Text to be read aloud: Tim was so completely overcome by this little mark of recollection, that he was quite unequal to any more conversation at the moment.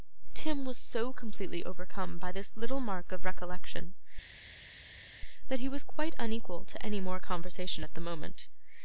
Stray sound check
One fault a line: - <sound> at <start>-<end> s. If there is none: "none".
none